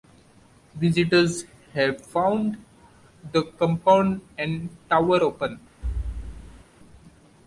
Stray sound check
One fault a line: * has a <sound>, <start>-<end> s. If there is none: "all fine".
* has a thud, 5.8-6.6 s